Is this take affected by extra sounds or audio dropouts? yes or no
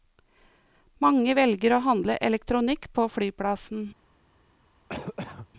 yes